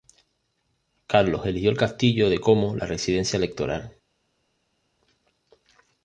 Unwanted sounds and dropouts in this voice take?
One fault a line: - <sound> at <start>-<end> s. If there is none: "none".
none